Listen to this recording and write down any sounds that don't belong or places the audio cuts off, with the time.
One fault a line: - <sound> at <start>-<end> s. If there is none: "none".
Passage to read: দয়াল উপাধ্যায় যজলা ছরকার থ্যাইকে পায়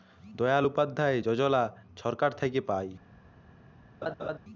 - laugh at 4.0-4.4 s